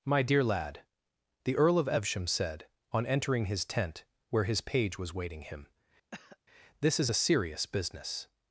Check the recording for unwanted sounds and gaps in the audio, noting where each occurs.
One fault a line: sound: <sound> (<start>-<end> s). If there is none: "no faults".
sound: cough (6.1-6.4 s)